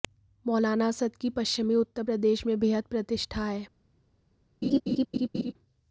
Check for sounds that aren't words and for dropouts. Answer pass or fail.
fail